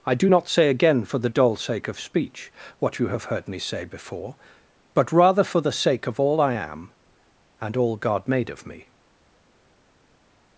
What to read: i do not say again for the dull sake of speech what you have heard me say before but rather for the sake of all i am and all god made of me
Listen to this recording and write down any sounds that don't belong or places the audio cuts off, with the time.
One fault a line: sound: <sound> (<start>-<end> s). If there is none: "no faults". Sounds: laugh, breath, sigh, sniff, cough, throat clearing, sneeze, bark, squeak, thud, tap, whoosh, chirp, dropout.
no faults